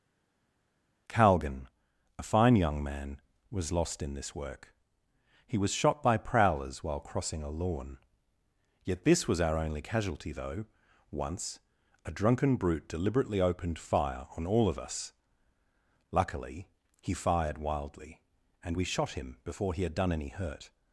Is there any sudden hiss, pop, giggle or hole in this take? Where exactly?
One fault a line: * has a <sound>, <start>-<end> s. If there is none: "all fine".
all fine